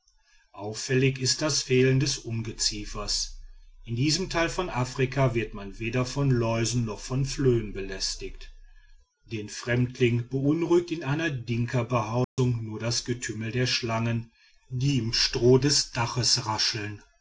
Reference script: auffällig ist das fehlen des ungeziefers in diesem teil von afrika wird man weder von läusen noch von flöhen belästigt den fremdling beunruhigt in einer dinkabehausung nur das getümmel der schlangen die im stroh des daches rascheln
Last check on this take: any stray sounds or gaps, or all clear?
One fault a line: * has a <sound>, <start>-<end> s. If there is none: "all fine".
* has a dropout, 12.2-12.4 s